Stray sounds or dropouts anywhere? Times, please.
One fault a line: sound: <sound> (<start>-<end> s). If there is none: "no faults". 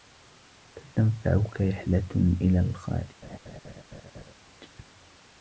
sound: laugh (3.2-4.3 s)